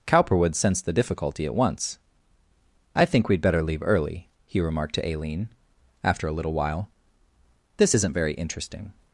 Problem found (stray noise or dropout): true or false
false